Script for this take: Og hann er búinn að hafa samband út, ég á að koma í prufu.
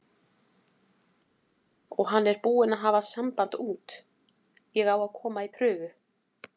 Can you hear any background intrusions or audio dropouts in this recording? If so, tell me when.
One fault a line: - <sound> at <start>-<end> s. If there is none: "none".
none